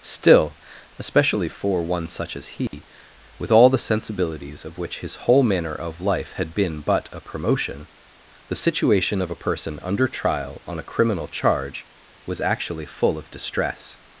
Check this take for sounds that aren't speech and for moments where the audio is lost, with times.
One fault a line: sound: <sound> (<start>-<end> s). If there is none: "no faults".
sound: dropout (2.7-2.7 s)